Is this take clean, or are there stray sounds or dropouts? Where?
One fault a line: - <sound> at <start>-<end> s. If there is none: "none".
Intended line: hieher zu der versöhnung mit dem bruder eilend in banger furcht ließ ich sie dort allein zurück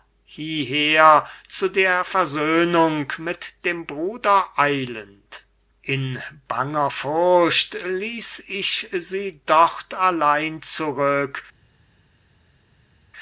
none